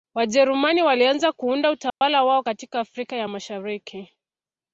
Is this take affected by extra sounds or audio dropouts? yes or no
yes